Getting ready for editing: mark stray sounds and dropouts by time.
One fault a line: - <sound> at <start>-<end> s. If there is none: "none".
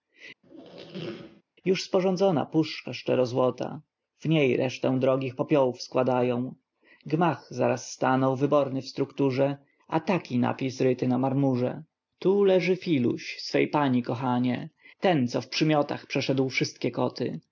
- squeak at 0.4-1.4 s